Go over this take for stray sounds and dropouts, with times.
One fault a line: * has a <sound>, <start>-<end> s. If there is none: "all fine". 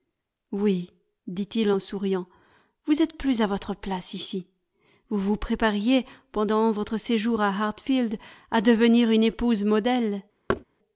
* has a thud, 10.5-10.6 s